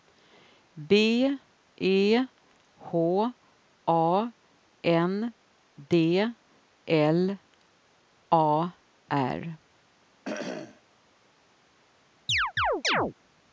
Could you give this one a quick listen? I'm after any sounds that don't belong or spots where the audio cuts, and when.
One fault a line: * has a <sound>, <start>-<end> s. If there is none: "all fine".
* has a cough, 10.2-10.8 s
* has a chirp, 12.3-13.1 s